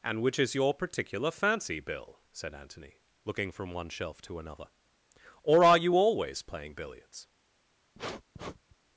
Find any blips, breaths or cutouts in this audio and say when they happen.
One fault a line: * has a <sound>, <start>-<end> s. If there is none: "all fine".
* has a sniff, 7.9-8.8 s